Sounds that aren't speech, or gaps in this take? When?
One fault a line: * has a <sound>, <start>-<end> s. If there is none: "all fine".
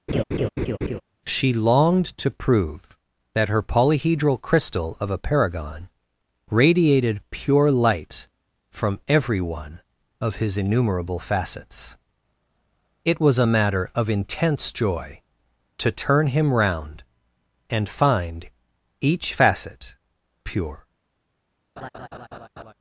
* has a laugh, 0.1-1.0 s
* has a laugh, 21.8-22.7 s